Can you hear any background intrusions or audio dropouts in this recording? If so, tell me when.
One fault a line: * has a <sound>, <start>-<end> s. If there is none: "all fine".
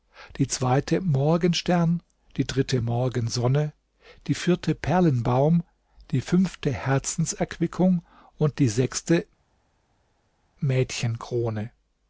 all fine